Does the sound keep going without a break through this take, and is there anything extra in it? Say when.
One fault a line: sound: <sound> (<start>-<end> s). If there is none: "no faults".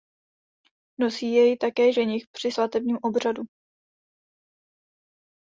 no faults